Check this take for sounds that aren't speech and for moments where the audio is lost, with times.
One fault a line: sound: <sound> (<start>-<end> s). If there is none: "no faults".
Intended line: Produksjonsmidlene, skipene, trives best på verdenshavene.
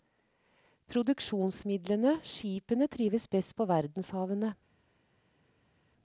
no faults